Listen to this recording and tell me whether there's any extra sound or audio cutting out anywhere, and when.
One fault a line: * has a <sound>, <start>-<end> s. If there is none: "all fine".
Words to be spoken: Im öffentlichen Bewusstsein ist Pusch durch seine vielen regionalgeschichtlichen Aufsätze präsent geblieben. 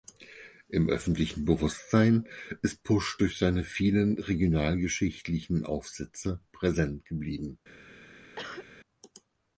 * has a cough, 8.4-8.7 s